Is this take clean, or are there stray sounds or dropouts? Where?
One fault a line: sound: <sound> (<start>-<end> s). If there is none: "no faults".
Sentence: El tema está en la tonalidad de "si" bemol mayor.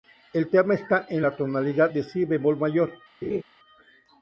sound: laugh (3.2-3.4 s)